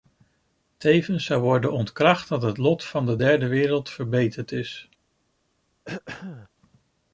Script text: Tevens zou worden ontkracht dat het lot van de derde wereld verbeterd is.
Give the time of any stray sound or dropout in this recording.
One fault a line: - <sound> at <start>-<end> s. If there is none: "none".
- throat clearing at 5.8-6.5 s